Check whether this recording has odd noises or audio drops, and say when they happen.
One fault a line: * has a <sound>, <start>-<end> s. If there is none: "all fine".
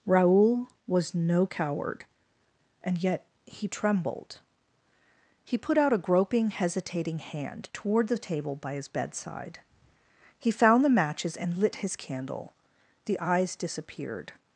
all fine